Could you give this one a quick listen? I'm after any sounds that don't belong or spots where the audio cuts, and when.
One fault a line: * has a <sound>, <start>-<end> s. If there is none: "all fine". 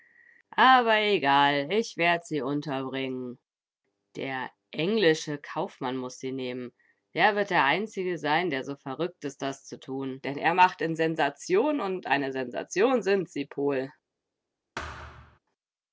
* has a thud, 14.8-15.4 s